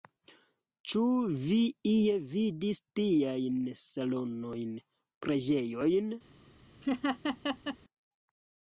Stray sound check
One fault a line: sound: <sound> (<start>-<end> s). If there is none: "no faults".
sound: laugh (6.8-7.8 s)